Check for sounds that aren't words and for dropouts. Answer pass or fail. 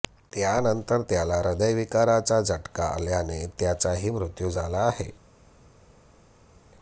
pass